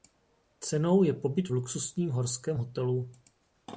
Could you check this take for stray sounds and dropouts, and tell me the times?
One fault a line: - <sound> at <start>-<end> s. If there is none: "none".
none